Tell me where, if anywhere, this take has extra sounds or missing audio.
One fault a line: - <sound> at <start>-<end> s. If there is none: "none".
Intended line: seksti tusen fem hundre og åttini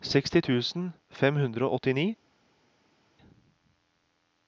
none